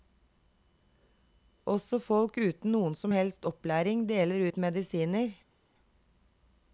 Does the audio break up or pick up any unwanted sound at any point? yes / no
no